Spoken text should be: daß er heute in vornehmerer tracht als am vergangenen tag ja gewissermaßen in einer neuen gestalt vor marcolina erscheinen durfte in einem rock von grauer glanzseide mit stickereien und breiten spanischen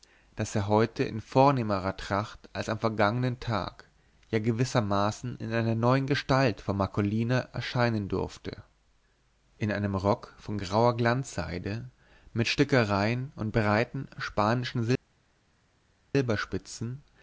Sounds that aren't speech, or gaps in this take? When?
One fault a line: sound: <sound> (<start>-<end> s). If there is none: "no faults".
no faults